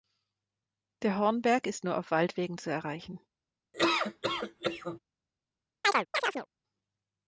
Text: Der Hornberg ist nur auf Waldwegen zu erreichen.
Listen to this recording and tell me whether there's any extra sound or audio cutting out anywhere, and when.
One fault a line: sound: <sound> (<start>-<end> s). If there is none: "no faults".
sound: laugh (3.7-5.0 s)
sound: chirp (5.8-6.5 s)